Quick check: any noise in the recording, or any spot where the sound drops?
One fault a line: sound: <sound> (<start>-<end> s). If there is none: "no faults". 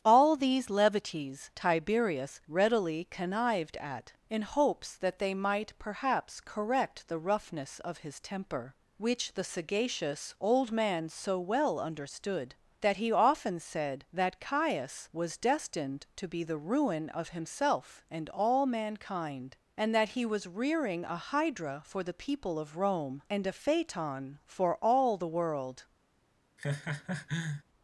sound: laugh (26.6-27.6 s)